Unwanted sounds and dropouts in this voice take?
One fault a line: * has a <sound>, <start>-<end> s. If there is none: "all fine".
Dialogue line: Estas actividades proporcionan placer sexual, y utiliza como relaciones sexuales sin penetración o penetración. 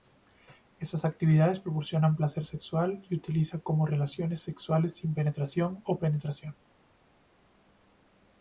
all fine